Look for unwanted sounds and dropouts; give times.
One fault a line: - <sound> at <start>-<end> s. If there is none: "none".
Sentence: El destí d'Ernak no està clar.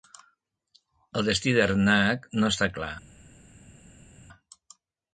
none